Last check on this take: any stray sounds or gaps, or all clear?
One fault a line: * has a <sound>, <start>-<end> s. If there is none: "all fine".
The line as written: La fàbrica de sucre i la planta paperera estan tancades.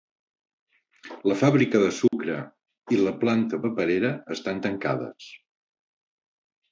* has a dropout, 2.1-2.1 s